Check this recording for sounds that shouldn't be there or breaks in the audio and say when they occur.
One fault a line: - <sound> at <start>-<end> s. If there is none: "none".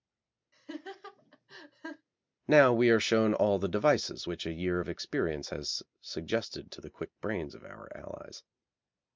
- laugh at 0.5-2.1 s